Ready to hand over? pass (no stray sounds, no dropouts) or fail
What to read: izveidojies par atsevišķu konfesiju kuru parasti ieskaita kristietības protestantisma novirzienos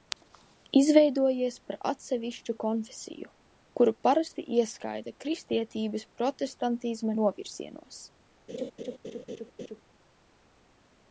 fail